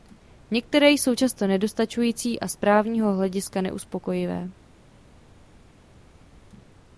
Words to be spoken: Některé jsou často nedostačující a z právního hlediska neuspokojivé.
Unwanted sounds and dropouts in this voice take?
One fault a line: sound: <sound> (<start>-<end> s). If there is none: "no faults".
no faults